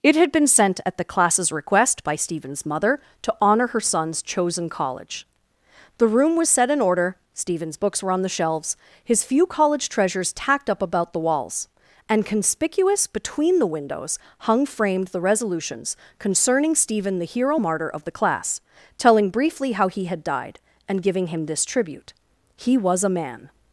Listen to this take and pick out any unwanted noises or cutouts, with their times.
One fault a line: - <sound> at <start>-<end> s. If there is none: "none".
none